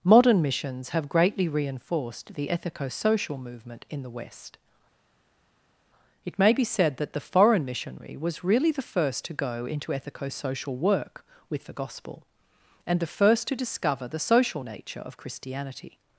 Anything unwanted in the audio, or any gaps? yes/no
no